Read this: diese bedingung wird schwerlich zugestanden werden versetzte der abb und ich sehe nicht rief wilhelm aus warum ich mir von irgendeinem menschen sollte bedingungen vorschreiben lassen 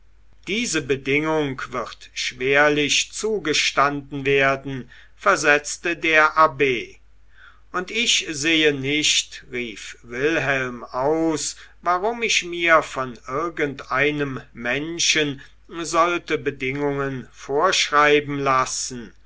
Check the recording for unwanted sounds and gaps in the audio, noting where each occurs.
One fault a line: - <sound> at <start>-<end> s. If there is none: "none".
none